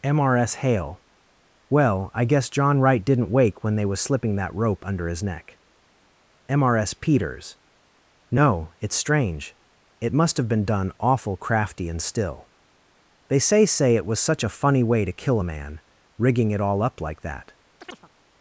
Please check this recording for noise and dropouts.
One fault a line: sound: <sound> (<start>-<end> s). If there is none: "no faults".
sound: chirp (17.8-18.1 s)